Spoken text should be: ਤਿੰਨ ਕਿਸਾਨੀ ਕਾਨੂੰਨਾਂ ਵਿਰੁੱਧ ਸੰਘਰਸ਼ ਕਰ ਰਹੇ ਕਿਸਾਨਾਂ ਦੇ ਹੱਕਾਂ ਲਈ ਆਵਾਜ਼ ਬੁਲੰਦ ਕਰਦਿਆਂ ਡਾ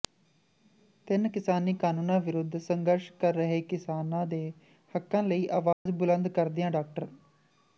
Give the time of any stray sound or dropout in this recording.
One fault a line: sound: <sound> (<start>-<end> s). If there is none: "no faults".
sound: dropout (5.7-5.9 s)